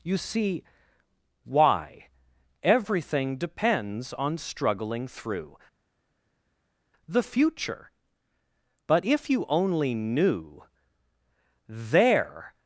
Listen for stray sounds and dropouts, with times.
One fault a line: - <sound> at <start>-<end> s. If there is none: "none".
none